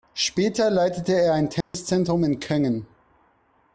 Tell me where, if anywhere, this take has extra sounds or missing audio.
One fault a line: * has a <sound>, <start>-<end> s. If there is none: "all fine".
* has a dropout, 1.6-1.7 s